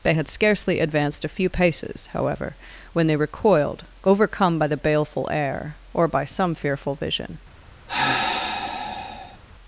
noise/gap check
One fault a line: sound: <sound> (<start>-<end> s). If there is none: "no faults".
sound: sigh (7.9-9.4 s)